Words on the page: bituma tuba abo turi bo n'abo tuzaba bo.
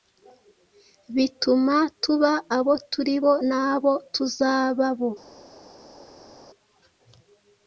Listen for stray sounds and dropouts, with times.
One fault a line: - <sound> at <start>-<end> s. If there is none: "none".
none